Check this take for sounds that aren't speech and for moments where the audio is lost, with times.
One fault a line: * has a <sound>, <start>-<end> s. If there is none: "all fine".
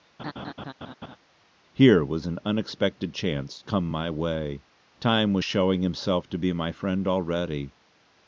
* has a laugh, 0.2-1.2 s